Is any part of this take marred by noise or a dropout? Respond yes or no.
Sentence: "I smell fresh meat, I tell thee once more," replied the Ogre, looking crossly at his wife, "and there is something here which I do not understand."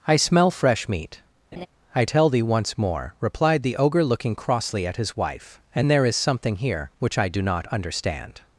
yes